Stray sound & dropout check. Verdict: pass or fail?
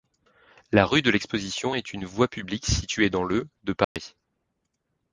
fail